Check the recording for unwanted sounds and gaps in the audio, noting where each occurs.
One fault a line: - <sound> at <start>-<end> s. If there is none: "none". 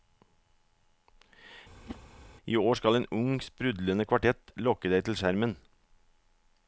- whoosh at 1.9-2.0 s